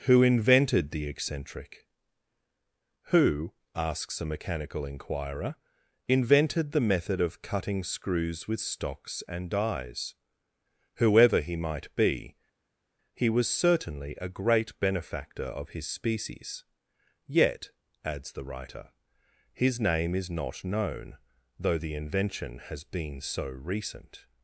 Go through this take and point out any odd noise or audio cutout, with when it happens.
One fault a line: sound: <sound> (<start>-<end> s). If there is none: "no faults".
no faults